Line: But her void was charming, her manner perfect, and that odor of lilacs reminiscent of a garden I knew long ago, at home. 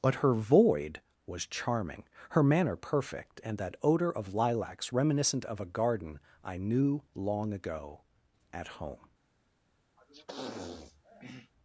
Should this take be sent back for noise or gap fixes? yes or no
yes